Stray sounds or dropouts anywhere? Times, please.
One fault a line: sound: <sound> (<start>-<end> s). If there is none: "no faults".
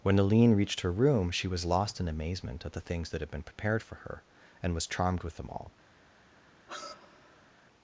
sound: sigh (6.7-7.5 s)